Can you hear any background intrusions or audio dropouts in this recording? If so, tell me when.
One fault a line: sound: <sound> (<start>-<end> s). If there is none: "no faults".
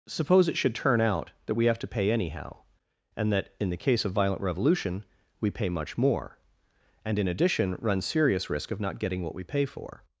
no faults